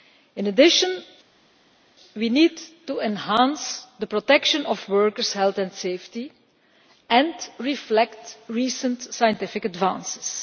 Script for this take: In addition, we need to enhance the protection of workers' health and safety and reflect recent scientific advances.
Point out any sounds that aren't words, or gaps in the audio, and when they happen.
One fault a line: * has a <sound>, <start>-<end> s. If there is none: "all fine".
all fine